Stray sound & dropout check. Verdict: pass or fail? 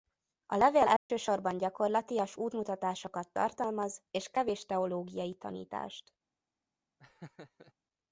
fail